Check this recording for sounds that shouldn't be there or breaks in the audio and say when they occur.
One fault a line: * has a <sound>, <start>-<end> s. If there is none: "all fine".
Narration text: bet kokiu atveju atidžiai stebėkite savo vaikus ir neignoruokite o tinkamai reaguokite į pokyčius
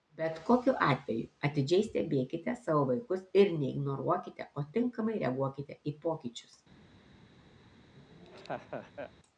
* has a laugh, 8.0-9.1 s